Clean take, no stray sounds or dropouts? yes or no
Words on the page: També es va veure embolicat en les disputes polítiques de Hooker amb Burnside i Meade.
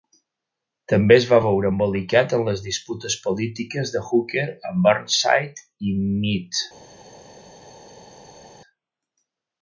yes